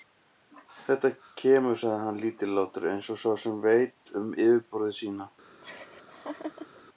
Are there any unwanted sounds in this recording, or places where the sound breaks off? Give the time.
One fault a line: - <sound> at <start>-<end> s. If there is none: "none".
- laugh at 5.6-6.8 s